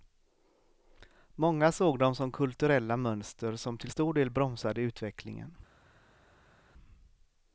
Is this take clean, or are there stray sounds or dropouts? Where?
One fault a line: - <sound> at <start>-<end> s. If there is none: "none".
none